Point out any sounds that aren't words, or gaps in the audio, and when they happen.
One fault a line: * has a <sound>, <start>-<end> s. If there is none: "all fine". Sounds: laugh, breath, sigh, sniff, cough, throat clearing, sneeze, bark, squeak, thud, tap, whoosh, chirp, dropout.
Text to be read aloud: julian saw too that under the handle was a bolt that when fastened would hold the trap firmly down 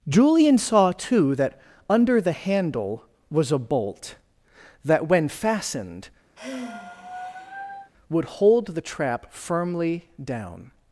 * has a sigh, 6.4-7.9 s